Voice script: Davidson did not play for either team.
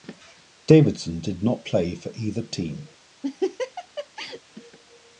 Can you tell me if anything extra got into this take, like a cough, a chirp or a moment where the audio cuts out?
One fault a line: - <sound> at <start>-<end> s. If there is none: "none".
- laugh at 3.2-4.4 s